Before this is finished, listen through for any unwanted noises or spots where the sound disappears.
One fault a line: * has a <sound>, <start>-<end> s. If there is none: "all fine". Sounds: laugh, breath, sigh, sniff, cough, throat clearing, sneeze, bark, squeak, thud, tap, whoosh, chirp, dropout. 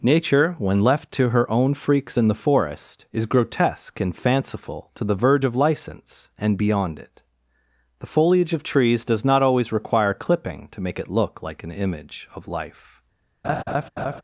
* has a laugh, 13.4-14.2 s